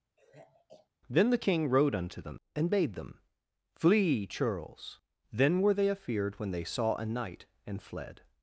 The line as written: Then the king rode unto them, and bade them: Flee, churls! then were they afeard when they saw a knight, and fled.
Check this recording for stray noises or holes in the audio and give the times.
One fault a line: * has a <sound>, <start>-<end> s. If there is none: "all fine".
* has a sigh, 0.2-0.9 s